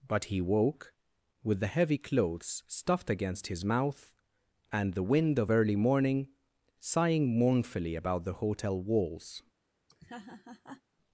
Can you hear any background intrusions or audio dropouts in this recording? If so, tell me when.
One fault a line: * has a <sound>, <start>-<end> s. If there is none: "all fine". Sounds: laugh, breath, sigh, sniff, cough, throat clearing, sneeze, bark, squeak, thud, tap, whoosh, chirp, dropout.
* has a laugh, 9.9-10.8 s